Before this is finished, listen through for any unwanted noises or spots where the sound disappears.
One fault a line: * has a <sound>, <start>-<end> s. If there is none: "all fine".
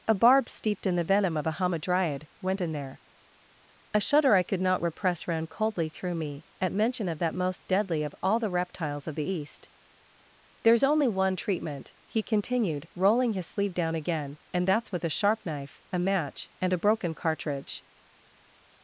all fine